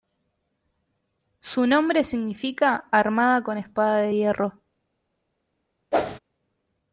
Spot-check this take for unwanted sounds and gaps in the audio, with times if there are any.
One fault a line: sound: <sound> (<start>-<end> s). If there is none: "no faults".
sound: whoosh (5.9-6.2 s)